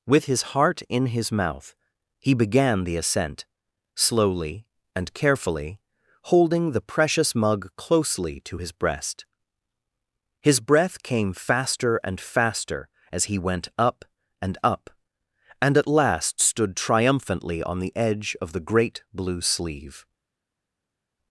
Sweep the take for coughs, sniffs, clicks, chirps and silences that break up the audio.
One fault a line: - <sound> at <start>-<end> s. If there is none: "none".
none